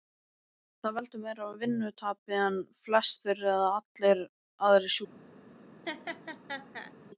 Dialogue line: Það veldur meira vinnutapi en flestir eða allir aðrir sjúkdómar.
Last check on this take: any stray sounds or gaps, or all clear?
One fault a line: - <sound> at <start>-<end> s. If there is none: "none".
- laugh at 5.8-6.9 s